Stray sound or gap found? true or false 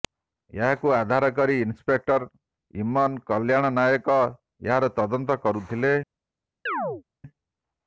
true